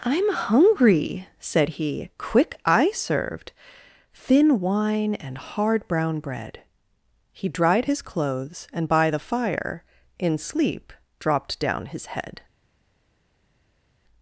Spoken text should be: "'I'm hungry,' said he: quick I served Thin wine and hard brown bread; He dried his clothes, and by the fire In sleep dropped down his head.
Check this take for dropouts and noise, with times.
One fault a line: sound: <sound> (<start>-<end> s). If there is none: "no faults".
no faults